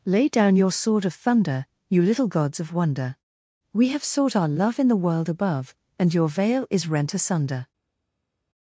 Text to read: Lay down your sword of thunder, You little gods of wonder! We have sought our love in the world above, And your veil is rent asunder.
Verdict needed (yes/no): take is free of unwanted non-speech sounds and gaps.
yes